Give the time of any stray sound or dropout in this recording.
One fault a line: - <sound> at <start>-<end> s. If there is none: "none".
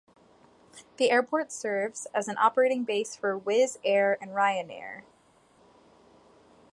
none